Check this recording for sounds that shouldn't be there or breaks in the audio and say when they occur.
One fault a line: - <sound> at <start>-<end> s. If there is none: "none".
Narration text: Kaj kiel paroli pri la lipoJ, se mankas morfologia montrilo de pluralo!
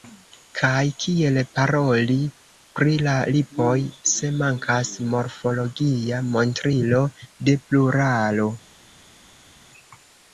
none